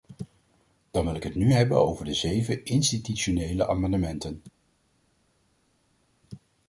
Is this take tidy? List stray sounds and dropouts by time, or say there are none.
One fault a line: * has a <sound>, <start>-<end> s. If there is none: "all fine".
all fine